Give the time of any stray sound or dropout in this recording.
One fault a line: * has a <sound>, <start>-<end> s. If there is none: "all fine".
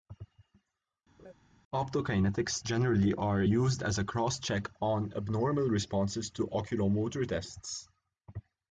* has a laugh, 1.2-1.3 s